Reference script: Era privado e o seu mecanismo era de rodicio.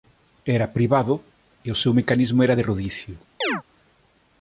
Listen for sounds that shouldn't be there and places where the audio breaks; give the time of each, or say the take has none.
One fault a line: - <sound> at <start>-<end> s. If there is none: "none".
- chirp at 3.4-3.6 s